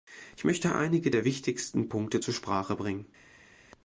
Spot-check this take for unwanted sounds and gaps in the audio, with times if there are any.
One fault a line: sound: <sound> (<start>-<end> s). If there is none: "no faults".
no faults